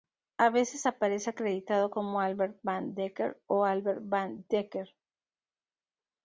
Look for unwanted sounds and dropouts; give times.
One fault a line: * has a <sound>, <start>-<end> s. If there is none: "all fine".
all fine